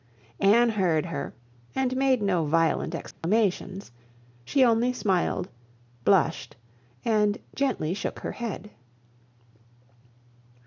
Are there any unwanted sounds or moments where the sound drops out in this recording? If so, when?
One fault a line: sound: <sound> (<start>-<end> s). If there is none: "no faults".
sound: dropout (3.1-3.2 s)